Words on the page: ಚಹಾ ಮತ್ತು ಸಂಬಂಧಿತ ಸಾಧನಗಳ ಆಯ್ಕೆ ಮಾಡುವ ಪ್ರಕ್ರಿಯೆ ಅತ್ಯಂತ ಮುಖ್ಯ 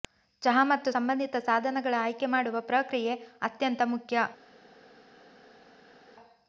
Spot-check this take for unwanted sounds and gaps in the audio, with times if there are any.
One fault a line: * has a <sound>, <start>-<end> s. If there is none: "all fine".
all fine